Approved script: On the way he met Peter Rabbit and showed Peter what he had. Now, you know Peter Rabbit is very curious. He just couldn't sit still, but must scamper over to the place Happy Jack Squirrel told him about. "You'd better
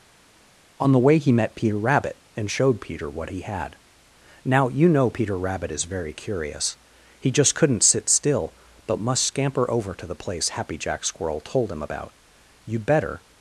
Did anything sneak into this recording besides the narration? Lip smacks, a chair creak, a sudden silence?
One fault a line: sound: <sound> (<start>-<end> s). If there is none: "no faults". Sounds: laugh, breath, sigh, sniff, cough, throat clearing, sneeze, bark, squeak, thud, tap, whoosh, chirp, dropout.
no faults